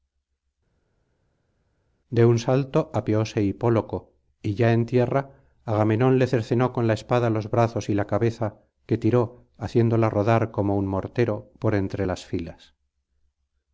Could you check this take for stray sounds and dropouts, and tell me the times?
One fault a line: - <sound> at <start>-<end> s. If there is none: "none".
none